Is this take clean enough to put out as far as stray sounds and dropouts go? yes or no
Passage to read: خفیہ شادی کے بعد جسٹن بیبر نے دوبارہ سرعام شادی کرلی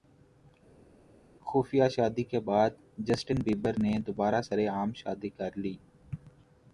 yes